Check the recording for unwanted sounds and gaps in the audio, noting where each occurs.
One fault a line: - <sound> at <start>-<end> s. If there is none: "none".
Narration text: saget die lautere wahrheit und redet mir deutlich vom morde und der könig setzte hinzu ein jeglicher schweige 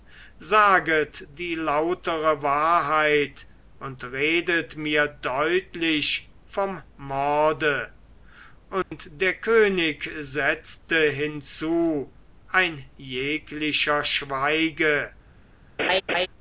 - dropout at 8.8-8.9 s
- laugh at 15.8-16.3 s